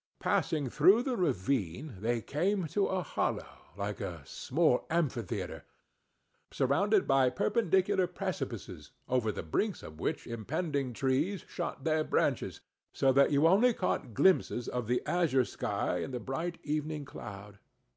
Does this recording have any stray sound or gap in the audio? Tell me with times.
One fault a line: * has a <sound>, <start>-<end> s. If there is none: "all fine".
all fine